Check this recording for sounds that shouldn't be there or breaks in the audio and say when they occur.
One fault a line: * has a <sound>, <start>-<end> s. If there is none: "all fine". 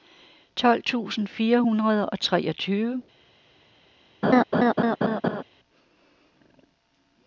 * has a laugh, 4.2-5.4 s